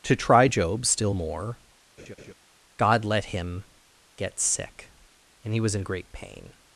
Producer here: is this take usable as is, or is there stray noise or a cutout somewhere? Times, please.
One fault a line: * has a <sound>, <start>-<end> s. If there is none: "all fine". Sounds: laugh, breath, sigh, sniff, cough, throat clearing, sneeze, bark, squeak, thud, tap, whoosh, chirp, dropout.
* has a laugh, 2.0-2.3 s